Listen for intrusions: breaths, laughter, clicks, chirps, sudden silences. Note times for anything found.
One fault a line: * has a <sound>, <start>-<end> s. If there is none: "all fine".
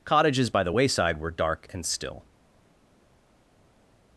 all fine